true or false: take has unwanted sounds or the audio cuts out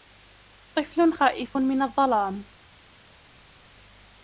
false